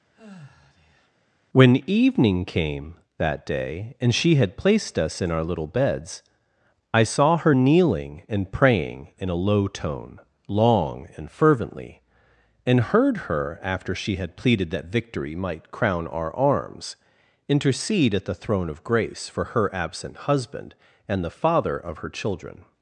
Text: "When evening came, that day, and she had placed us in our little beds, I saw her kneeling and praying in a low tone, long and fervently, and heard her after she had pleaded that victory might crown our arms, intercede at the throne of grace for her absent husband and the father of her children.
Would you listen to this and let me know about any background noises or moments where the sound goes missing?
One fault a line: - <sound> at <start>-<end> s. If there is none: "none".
- sigh at 0.1-1.1 s